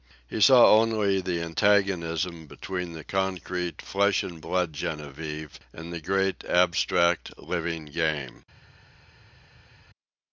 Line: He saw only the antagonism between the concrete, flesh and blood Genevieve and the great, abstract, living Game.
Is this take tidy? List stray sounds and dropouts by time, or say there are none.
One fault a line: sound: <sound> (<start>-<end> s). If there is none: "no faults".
no faults